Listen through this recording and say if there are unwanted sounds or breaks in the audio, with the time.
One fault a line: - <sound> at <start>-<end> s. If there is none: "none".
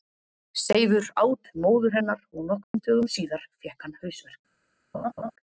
- dropout at 2.6-2.7 s
- laugh at 4.9-5.3 s